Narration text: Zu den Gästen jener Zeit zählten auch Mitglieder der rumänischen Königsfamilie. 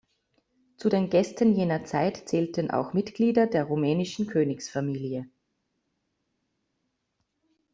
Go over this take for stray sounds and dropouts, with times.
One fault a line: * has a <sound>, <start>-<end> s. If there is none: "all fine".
all fine